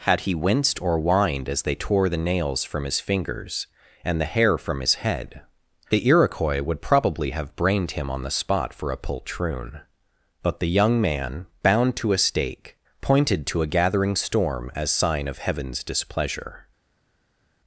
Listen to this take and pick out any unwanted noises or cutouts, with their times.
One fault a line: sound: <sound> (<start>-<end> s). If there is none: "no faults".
no faults